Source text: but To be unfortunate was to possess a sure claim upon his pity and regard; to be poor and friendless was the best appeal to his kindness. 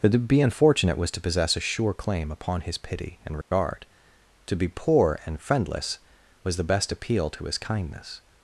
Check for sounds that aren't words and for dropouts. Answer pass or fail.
fail